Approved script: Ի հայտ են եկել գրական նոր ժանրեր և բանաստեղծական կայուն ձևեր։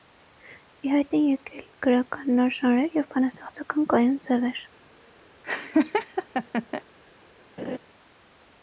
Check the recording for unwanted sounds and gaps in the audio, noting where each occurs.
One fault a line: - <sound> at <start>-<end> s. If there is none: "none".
- laugh at 5.4-6.8 s
- laugh at 7.6-7.8 s